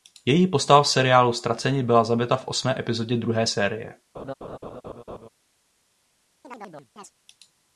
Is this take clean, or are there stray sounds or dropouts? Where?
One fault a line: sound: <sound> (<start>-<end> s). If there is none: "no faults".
sound: laugh (4.1-5.3 s)
sound: chirp (6.4-7.1 s)